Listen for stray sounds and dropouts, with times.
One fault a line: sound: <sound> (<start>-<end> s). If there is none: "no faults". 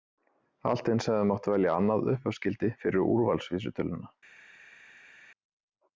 no faults